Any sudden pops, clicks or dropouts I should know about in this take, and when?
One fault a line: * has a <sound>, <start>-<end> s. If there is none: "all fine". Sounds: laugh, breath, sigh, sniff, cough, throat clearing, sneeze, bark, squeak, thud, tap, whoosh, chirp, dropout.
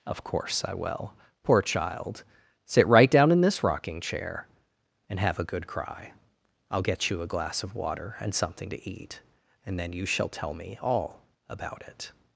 all fine